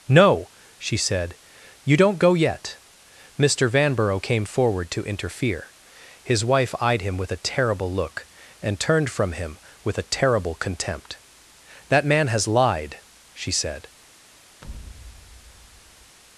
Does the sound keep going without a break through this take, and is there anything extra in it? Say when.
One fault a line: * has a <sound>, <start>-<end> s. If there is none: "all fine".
* has a thud, 14.6-16.2 s